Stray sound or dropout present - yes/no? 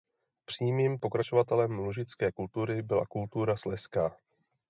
no